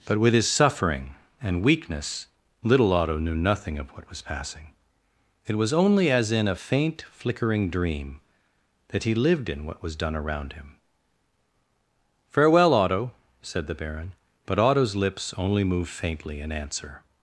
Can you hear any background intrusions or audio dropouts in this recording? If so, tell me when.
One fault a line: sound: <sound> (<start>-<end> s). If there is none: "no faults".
no faults